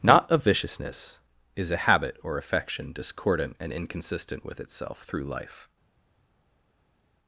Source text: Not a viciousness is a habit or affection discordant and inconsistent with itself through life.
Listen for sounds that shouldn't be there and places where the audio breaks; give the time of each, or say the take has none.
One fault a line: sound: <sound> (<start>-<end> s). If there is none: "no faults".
no faults